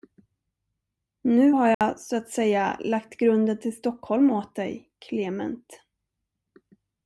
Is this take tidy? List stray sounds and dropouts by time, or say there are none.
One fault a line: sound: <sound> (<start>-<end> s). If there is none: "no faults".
sound: dropout (1.7-1.8 s)